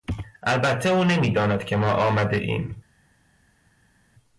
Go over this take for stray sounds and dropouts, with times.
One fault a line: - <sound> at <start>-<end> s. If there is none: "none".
none